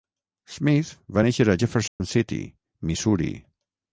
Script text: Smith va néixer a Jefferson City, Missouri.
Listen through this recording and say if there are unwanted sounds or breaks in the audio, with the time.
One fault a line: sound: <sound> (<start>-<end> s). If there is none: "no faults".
sound: dropout (1.9-2.0 s)